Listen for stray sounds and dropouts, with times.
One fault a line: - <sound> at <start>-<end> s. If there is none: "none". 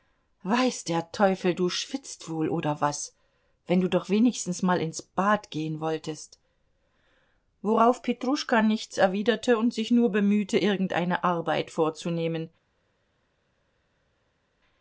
none